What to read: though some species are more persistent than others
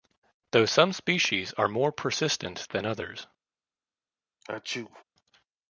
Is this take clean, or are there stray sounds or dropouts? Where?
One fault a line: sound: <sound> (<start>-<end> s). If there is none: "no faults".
sound: sneeze (4.4-5.0 s)